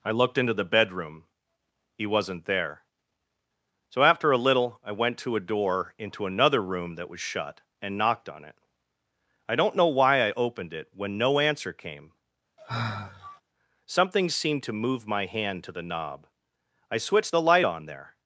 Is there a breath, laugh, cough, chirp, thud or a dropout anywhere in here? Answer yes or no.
yes